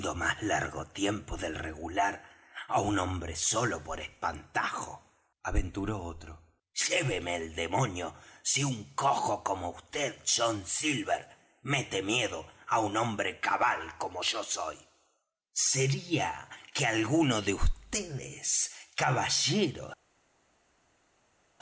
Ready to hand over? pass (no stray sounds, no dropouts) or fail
pass